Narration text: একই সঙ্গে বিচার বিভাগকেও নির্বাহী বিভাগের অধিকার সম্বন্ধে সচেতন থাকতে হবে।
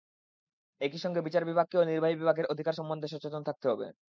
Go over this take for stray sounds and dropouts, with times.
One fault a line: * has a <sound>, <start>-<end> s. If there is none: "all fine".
all fine